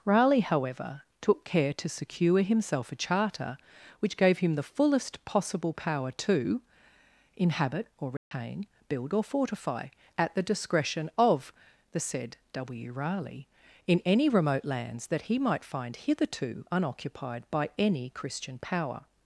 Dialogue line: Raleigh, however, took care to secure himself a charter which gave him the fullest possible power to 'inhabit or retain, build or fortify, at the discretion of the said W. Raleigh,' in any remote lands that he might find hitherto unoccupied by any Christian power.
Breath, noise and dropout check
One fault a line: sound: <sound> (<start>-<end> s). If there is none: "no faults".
sound: dropout (8.2-8.3 s)